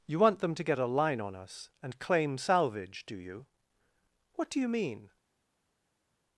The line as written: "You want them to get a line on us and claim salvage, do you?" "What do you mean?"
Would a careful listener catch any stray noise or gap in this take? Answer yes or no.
no